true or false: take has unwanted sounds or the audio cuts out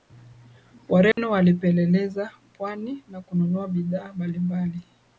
true